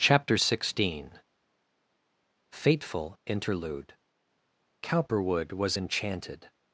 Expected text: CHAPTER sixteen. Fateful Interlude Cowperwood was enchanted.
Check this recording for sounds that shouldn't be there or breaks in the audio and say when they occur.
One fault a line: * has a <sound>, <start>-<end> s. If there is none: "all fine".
all fine